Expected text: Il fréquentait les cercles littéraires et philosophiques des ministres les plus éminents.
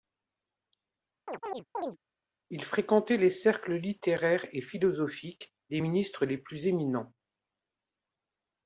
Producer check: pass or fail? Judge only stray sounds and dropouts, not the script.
fail